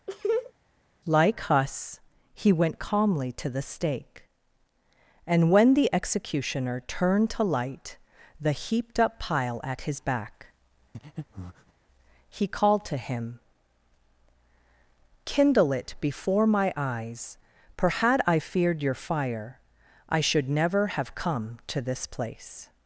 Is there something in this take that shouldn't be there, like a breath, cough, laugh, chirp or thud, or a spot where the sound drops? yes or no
yes